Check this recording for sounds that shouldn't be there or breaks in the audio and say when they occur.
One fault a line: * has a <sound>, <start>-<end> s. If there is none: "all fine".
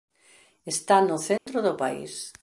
* has a dropout, 1.4-1.5 s